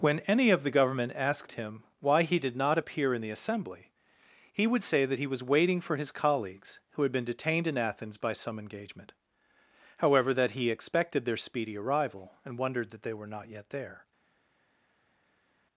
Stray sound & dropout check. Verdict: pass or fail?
pass